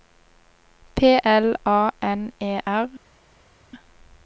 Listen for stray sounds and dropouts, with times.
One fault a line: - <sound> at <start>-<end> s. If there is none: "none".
none